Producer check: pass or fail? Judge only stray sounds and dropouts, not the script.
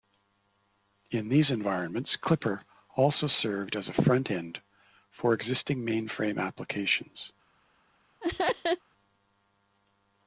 fail